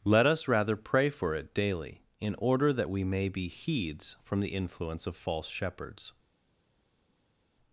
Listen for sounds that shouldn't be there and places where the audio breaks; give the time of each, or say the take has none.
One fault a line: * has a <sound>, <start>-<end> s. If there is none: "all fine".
all fine